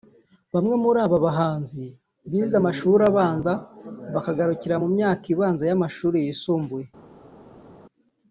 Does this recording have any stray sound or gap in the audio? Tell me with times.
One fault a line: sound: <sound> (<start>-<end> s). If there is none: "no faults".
no faults